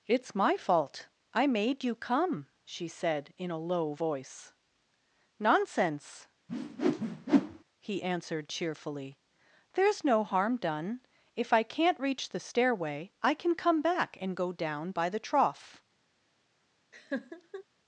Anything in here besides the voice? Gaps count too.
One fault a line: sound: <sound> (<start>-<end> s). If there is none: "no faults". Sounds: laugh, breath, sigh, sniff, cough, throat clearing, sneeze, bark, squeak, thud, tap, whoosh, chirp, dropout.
sound: whoosh (6.5-7.6 s)
sound: laugh (16.9-17.6 s)